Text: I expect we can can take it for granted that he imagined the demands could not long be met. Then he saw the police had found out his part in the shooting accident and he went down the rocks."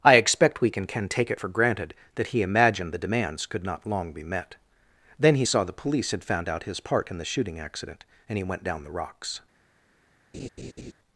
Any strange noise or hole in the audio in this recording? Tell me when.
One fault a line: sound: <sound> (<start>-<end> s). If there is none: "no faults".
sound: laugh (10.3-10.9 s)